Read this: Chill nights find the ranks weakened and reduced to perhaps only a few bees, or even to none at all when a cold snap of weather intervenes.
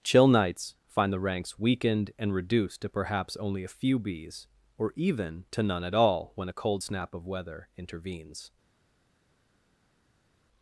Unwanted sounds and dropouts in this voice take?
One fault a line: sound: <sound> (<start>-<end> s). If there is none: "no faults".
no faults